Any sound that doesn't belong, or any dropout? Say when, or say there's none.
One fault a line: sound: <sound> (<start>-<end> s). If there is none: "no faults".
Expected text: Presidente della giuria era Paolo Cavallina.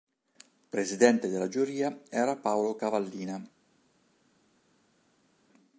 no faults